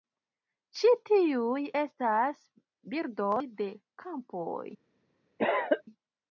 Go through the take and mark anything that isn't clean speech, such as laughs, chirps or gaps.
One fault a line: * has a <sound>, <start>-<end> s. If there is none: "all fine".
* has a cough, 5.4-5.8 s